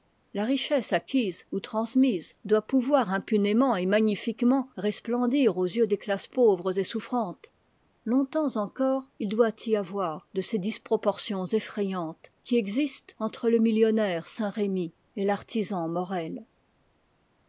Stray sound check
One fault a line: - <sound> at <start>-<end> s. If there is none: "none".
none